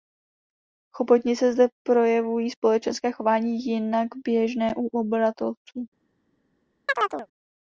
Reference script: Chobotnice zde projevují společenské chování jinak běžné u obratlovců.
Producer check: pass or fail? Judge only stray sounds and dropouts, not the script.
fail